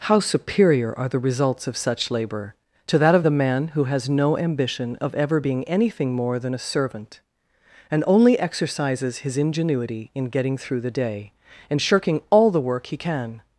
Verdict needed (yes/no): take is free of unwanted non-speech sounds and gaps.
yes